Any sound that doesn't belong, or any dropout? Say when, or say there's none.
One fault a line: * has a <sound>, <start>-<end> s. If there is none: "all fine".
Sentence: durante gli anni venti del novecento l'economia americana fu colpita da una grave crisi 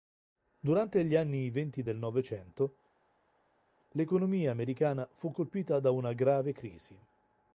all fine